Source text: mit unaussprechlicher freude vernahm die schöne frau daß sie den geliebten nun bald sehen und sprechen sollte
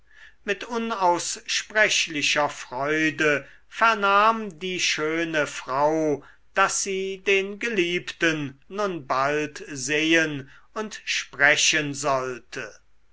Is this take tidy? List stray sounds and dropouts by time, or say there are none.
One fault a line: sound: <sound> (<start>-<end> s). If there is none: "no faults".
no faults